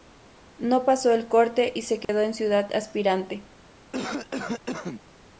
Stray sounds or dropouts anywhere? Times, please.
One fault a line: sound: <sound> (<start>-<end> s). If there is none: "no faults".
sound: dropout (2.0-2.1 s)
sound: cough (3.9-5.0 s)